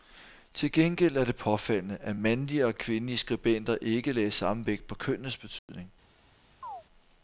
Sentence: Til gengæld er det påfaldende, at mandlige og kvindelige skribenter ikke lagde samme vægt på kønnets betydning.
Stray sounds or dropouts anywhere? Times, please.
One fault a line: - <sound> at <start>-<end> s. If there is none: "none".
- dropout at 5.6-5.7 s
- chirp at 6.6-6.8 s